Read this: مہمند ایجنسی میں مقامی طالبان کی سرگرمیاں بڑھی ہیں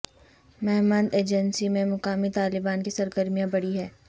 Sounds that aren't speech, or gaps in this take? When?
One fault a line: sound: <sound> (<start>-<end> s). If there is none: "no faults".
no faults